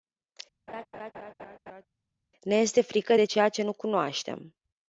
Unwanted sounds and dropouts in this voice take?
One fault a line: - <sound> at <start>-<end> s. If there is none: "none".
- laugh at 0.7-1.8 s